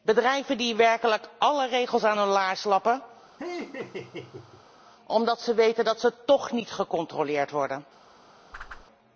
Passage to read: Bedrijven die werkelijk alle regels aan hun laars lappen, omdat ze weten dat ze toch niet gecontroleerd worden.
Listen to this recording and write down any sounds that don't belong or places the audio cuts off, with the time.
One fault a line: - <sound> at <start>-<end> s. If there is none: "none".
- laugh at 3.4-4.7 s
- whoosh at 8.5-8.9 s